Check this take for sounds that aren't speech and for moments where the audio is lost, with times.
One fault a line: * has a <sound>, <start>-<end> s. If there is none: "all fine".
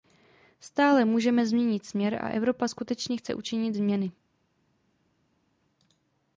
all fine